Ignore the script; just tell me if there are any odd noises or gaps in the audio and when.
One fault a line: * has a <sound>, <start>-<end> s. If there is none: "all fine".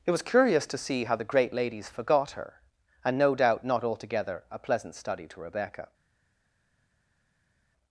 all fine